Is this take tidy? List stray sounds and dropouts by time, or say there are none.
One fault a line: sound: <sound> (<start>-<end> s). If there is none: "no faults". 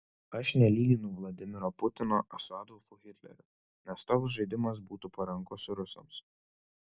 no faults